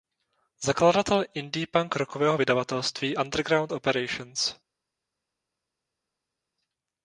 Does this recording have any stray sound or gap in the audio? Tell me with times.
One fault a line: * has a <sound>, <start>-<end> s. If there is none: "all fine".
all fine